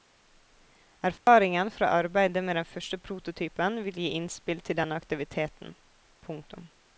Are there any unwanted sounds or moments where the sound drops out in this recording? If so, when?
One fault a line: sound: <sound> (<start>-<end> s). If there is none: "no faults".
sound: dropout (1.2-1.3 s)